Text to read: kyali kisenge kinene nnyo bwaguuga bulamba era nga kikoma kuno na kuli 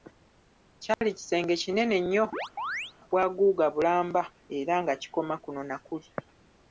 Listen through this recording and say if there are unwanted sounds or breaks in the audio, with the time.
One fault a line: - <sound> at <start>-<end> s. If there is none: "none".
- dropout at 0.9-1.0 s
- chirp at 2.3-2.9 s